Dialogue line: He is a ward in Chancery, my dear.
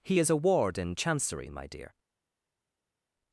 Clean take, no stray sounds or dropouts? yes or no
yes